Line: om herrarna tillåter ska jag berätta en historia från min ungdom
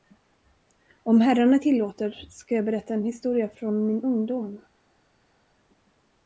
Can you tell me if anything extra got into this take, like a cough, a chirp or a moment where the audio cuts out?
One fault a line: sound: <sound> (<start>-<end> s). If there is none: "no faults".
no faults